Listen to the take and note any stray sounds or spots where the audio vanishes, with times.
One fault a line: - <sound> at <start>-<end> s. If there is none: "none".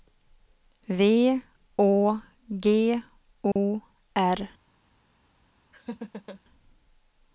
- dropout at 3.5-3.6 s
- laugh at 5.7-6.4 s